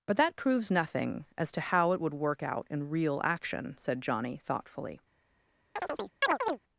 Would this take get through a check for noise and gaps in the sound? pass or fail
fail